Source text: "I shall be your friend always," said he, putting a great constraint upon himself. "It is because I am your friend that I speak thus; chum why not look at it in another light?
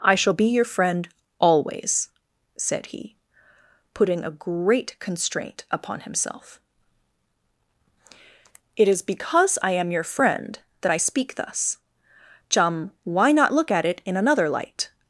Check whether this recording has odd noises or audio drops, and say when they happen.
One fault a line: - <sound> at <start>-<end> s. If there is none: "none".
none